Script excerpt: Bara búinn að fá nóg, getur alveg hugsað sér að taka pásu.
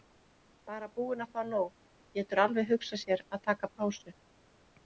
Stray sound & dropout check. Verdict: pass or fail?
pass